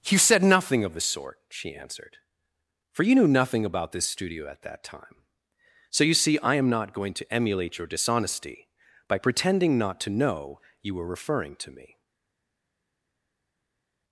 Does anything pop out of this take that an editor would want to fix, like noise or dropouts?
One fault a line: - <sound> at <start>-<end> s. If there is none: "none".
none